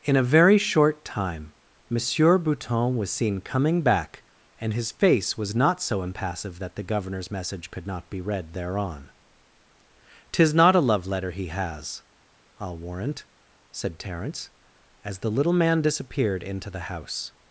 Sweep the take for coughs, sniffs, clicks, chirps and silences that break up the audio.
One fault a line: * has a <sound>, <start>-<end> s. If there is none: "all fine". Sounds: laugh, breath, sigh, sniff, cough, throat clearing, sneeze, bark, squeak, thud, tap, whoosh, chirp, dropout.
all fine